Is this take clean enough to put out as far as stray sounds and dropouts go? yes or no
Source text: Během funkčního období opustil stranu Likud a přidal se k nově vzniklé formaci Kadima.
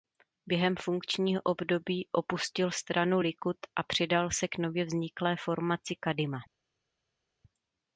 yes